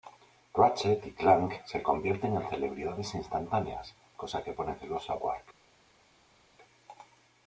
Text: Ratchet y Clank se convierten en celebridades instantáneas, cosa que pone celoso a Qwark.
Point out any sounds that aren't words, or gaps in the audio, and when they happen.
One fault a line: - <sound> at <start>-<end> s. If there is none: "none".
none